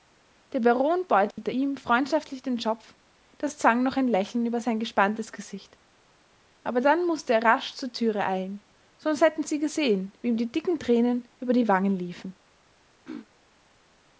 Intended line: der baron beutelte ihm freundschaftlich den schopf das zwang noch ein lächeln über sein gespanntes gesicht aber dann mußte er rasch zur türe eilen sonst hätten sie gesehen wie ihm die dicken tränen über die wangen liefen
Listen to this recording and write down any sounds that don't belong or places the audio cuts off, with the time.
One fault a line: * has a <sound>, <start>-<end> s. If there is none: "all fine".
* has a dropout, 1.3-1.4 s
* has a throat clearing, 13.1-13.3 s